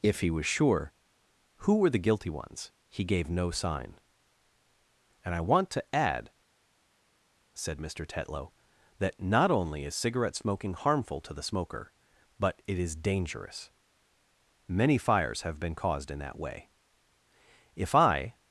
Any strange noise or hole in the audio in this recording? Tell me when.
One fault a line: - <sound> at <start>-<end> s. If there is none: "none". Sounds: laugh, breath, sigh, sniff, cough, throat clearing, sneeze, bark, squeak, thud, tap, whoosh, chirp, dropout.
none